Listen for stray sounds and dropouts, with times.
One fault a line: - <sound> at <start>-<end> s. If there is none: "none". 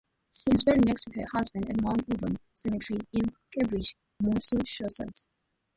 none